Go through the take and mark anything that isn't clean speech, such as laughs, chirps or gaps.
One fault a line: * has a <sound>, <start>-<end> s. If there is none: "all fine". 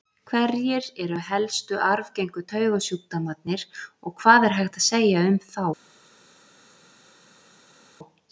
all fine